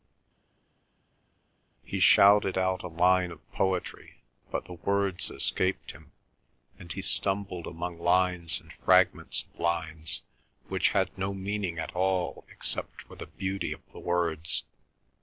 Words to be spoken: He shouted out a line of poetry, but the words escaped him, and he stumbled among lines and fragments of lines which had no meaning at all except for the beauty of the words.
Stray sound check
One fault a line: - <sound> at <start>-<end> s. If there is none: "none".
none